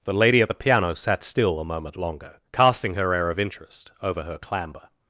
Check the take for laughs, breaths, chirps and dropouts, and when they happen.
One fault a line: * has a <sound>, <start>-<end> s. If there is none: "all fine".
all fine